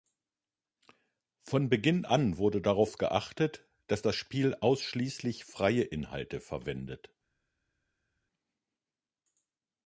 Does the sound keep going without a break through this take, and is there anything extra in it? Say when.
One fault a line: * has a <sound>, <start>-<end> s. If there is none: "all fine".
all fine